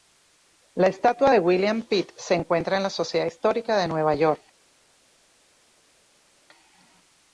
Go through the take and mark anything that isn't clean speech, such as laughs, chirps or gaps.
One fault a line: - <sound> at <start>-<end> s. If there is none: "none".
none